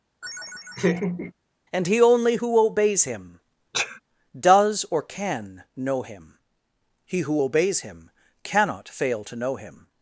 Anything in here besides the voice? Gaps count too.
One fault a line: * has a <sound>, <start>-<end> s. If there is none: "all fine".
* has a laugh, 0.2-1.3 s
* has a sneeze, 3.7-4.0 s